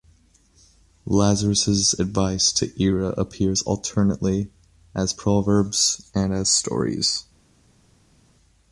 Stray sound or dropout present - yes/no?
no